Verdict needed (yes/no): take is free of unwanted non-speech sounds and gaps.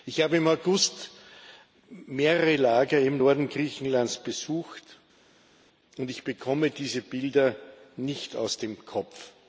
yes